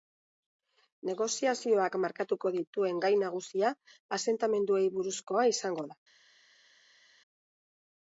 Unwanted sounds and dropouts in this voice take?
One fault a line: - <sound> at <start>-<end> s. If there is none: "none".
none